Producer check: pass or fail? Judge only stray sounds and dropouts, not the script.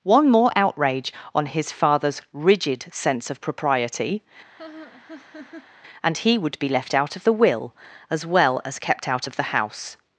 fail